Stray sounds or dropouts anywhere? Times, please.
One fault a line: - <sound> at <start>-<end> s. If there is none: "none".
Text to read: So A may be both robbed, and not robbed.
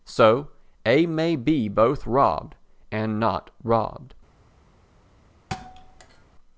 - thud at 5.5-6.3 s